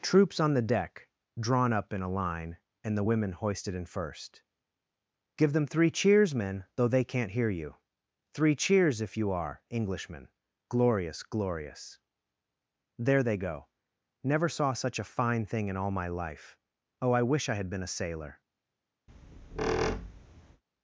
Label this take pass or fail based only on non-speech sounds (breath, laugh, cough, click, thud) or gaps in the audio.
fail